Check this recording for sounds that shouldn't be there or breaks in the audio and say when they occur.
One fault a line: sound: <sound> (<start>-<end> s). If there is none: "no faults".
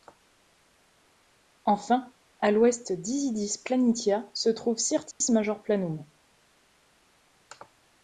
sound: dropout (5.1-5.2 s)